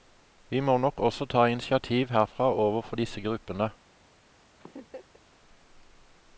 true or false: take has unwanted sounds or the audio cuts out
true